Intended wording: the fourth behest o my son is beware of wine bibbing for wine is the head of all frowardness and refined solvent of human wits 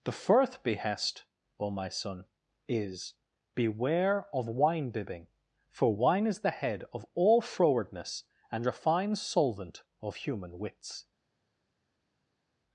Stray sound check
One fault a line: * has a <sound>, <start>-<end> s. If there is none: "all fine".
all fine